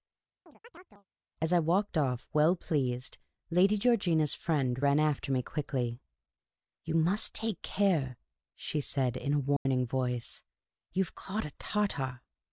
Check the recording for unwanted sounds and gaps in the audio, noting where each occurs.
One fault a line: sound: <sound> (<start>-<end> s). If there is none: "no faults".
sound: chirp (0.5-1.1 s)
sound: dropout (9.6-9.7 s)